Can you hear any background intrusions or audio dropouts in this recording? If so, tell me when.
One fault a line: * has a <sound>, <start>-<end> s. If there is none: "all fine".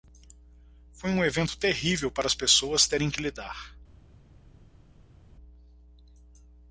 all fine